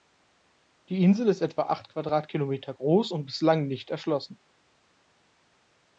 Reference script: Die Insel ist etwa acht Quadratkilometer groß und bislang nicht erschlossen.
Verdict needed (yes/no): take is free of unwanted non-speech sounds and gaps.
yes